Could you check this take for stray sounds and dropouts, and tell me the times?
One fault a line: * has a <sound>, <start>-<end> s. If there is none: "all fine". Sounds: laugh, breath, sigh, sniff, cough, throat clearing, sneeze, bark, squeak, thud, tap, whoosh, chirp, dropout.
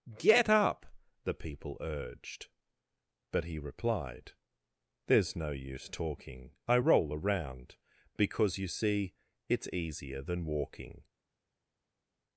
all fine